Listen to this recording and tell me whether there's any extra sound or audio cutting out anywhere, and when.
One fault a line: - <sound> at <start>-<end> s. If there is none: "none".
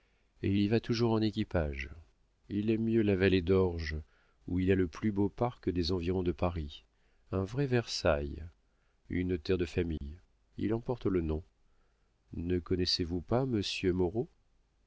- dropout at 10.0-10.0 s